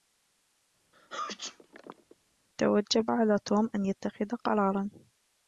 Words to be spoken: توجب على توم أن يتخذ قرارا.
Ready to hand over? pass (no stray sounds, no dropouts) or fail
fail